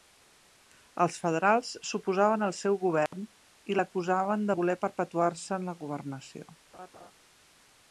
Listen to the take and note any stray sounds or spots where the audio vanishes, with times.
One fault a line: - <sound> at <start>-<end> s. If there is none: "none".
- dropout at 3.1-3.1 s
- laugh at 6.7-7.1 s